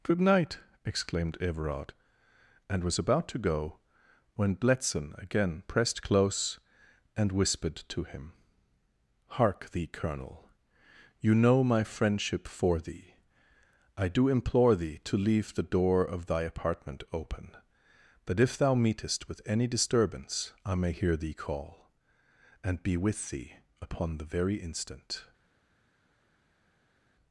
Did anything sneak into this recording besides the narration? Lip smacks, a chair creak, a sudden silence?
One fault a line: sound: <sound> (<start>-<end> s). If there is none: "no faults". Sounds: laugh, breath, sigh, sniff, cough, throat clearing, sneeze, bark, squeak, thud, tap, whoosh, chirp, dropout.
no faults